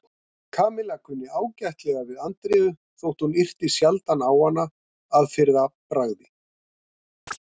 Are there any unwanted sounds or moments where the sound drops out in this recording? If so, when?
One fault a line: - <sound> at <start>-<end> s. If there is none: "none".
- chirp at 7.3-7.4 s